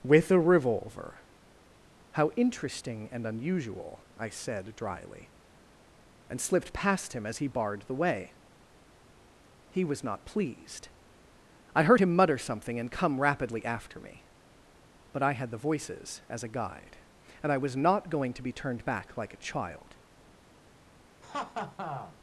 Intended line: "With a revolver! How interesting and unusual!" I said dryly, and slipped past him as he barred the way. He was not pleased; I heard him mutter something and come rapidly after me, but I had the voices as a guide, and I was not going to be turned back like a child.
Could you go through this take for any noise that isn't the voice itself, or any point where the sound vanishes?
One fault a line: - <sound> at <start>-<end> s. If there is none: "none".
- laugh at 21.2-22.2 s